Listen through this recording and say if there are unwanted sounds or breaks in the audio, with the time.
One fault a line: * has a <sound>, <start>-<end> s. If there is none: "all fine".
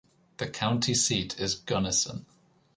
all fine